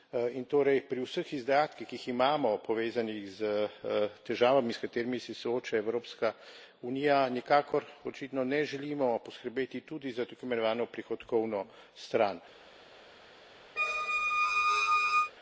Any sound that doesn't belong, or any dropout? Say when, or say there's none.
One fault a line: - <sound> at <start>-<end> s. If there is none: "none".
- squeak at 13.8-15.3 s